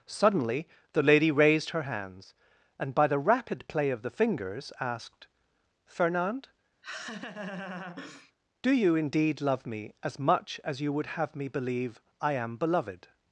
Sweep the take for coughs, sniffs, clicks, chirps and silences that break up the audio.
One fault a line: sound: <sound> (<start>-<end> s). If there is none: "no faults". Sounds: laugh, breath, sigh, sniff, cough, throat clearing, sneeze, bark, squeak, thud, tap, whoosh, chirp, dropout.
sound: laugh (6.8-8.3 s)